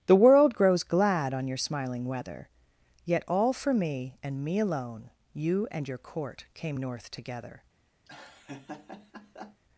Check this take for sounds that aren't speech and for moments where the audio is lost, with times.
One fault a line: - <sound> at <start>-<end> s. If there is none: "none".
- laugh at 8.1-9.6 s